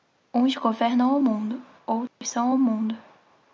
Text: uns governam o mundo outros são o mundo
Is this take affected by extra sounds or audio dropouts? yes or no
yes